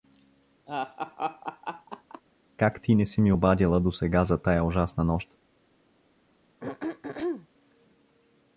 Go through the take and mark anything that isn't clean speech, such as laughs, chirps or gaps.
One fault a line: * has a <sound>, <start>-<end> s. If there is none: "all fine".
* has a laugh, 0.7-2.2 s
* has a throat clearing, 6.6-7.5 s